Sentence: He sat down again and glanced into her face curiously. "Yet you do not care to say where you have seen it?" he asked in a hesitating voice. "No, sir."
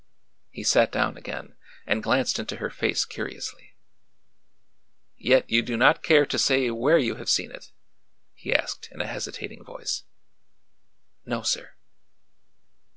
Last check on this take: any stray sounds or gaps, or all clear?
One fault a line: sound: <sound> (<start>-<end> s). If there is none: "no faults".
no faults